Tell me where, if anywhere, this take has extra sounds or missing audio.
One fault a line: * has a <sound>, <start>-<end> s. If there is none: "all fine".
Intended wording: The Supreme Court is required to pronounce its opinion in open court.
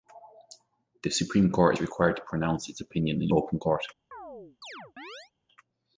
* has a chirp, 4.1-5.3 s